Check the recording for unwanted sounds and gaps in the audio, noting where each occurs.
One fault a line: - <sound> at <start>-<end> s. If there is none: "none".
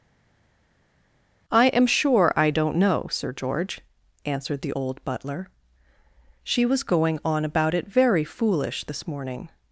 none